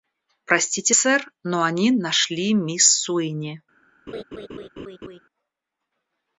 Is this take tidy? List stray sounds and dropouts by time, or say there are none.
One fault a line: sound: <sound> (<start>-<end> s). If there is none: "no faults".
sound: laugh (4.1-5.2 s)